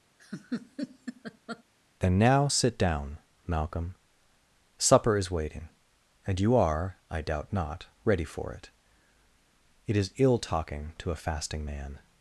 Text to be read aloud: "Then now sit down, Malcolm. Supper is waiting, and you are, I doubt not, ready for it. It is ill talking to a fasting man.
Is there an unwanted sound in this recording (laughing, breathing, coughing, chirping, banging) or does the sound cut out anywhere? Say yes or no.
yes